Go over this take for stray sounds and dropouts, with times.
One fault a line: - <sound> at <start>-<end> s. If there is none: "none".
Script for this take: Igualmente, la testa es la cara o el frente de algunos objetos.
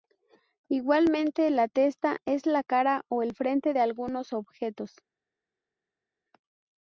none